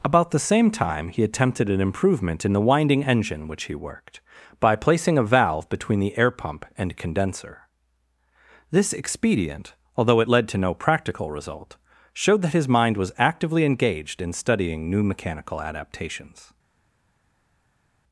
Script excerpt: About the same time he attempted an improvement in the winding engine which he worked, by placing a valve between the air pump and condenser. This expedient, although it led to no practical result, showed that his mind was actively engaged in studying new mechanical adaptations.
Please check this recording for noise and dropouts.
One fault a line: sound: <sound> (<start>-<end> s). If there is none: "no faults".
no faults